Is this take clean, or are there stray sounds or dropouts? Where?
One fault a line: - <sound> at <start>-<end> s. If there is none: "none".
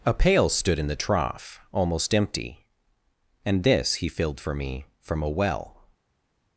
none